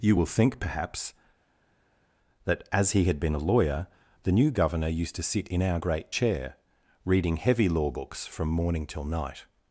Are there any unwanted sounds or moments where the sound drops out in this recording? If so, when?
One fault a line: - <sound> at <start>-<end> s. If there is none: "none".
none